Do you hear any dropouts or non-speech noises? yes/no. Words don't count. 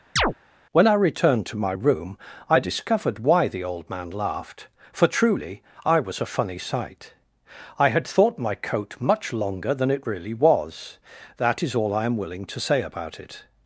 yes